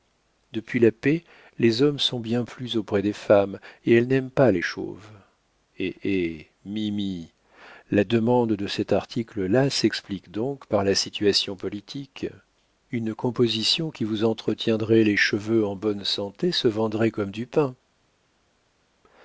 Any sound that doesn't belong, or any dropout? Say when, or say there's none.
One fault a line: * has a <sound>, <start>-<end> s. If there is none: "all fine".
all fine